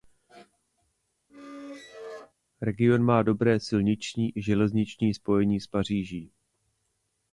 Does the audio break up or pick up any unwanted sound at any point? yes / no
yes